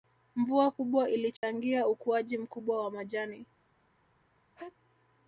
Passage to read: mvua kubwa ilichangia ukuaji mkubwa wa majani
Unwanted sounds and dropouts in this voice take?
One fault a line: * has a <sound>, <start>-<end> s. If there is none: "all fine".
* has a dropout, 1.4-1.4 s
* has a sneeze, 4.6-4.8 s